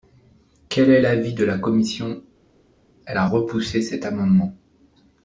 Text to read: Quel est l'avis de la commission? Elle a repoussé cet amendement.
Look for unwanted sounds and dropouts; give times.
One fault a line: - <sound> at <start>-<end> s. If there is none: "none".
none